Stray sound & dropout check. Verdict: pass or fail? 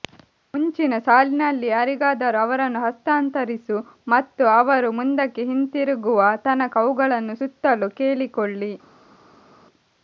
pass